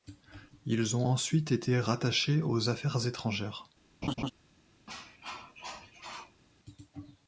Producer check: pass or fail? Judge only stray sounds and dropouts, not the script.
fail